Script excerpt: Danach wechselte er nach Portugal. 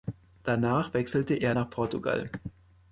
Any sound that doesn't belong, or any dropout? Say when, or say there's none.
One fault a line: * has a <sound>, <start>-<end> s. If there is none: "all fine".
all fine